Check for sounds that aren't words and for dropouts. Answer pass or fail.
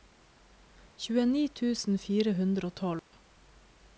fail